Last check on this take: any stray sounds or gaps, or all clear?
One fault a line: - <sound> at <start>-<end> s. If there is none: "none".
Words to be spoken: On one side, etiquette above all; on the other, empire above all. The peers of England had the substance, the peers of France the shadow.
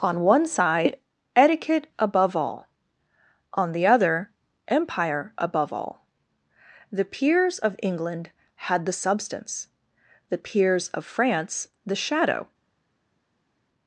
none